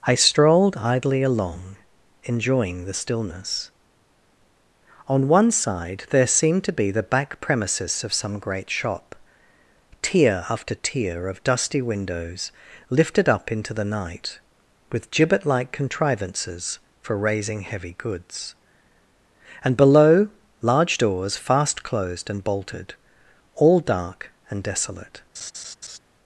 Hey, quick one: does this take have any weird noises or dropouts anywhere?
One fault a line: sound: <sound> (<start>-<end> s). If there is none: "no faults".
sound: laugh (25.3-26.0 s)